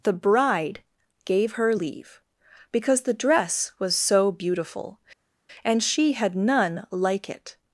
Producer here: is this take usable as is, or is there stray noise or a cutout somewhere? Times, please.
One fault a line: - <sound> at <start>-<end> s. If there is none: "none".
none